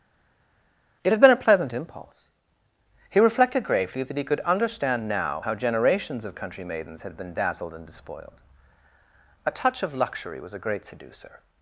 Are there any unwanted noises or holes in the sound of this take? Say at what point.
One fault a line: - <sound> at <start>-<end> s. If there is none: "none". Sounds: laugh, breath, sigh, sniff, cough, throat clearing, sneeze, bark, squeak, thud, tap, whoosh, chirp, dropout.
none